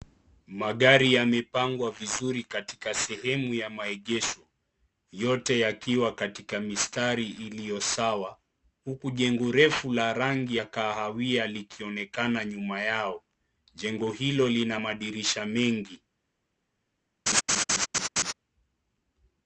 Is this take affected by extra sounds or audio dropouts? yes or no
yes